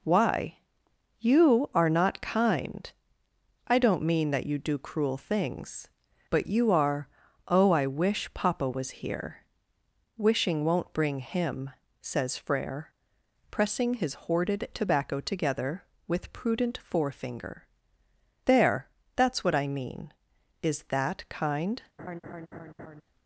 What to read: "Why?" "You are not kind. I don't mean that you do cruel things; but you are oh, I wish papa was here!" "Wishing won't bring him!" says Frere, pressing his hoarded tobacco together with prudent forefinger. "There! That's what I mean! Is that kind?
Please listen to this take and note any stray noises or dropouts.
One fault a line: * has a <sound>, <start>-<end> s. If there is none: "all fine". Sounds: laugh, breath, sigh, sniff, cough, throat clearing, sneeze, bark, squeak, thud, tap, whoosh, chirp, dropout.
* has a laugh, 22.0-23.0 s